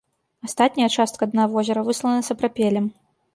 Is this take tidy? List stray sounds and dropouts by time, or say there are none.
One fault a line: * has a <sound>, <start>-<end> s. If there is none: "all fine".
all fine